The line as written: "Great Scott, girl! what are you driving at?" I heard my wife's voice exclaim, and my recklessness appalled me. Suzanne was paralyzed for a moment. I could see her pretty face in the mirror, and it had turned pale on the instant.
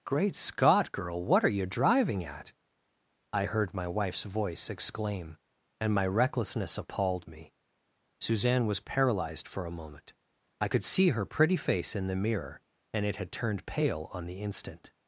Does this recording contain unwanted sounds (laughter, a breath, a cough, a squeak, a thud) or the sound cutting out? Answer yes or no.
no